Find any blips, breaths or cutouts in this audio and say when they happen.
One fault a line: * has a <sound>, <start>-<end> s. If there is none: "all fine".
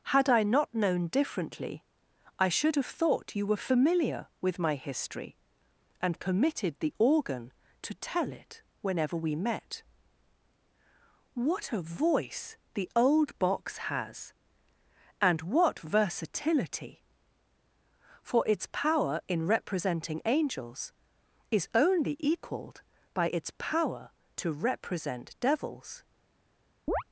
* has a chirp, 26.9-27.0 s